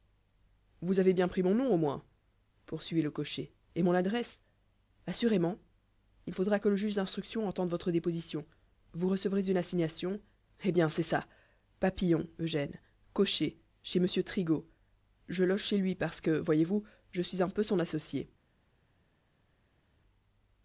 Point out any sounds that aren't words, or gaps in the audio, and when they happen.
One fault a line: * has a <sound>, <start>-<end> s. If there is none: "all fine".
all fine